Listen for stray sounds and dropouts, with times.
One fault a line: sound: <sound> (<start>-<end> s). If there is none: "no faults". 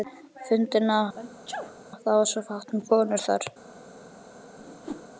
sound: sneeze (1.1-1.8 s)
sound: whoosh (4.6-5.1 s)